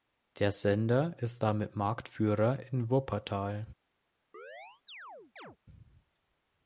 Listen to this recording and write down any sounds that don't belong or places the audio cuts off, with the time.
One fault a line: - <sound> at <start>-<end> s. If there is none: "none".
- chirp at 4.3-5.6 s